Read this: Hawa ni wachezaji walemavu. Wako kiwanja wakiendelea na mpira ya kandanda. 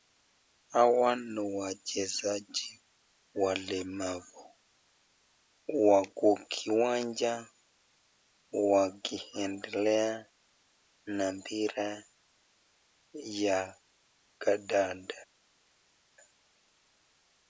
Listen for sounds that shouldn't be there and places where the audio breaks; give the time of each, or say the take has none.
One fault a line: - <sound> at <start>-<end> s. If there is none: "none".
none